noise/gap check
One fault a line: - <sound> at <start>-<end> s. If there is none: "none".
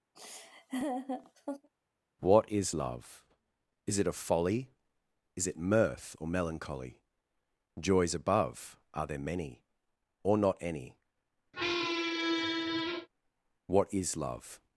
- laugh at 0.1-1.7 s
- squeak at 11.5-13.1 s